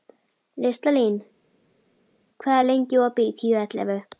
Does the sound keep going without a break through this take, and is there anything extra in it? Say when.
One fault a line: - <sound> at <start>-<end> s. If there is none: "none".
none